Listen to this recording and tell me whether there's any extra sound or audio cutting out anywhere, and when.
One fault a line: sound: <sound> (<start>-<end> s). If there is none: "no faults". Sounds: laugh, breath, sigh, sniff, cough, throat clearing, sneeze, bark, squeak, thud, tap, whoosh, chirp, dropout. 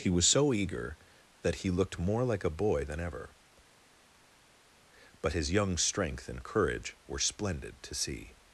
no faults